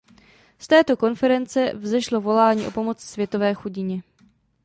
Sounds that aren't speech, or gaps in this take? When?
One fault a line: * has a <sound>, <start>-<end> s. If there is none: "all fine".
all fine